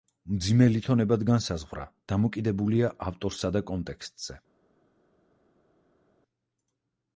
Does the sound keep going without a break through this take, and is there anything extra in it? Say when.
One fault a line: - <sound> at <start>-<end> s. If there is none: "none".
none